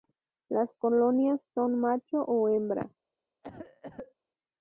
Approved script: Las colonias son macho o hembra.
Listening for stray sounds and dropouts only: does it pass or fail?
fail